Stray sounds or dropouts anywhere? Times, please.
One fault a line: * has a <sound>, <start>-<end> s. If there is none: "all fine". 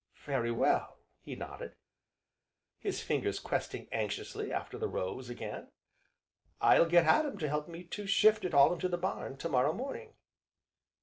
all fine